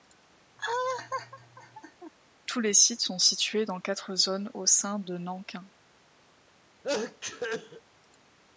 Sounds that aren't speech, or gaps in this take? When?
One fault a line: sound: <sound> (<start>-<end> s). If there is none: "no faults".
sound: laugh (0.6-2.1 s)
sound: sneeze (6.8-7.8 s)